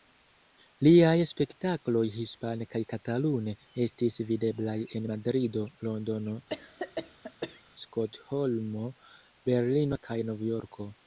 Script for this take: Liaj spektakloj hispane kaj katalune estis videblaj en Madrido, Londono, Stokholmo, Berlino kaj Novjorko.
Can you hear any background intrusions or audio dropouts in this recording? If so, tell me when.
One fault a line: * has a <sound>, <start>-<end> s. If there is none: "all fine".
* has a cough, 6.5-7.6 s